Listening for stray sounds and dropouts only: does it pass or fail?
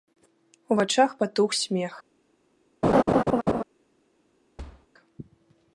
fail